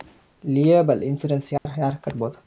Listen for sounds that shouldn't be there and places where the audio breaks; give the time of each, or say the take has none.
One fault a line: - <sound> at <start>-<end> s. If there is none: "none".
- dropout at 1.6-1.7 s